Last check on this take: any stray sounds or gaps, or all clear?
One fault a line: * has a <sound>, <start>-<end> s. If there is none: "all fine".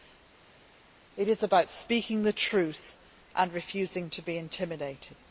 all fine